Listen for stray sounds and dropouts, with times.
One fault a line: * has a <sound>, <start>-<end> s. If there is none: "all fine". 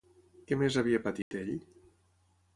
* has a dropout, 1.2-1.3 s